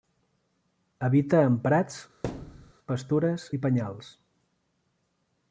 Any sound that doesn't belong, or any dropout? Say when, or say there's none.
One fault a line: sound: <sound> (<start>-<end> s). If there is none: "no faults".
sound: thud (2.2-2.7 s)